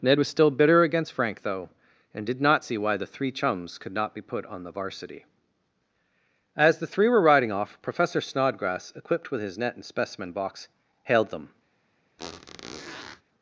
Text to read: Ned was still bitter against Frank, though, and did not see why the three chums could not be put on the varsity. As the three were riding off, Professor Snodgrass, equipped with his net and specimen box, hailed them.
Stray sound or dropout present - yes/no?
yes